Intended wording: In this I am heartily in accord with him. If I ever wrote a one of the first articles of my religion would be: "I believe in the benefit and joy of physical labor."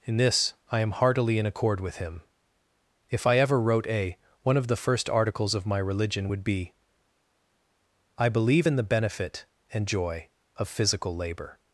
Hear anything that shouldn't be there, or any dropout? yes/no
no